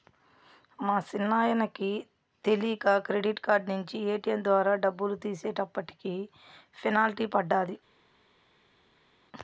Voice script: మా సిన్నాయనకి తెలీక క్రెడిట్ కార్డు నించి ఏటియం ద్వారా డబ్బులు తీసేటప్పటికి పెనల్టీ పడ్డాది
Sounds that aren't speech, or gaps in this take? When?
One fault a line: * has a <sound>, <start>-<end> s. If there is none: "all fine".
all fine